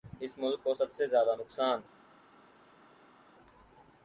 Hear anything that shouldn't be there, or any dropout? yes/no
no